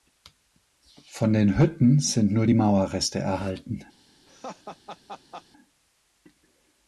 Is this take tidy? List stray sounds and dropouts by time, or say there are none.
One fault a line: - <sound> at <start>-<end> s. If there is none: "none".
- laugh at 4.3-5.5 s